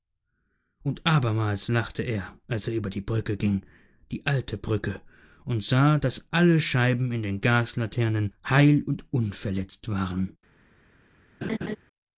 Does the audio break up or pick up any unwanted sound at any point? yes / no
yes